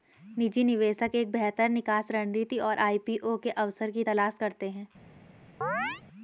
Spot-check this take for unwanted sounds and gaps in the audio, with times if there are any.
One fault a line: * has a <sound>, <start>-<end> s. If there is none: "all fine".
* has a chirp, 5.6-6.0 s